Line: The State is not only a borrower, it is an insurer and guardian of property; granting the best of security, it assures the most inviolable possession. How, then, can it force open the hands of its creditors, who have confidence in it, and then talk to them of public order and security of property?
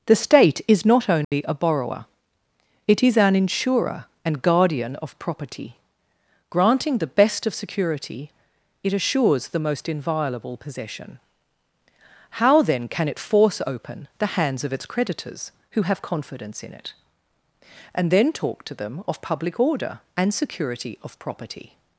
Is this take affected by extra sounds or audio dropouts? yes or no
yes